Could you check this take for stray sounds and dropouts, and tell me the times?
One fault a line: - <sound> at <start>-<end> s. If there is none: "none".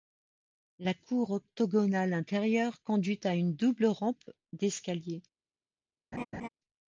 - laugh at 6.1-6.5 s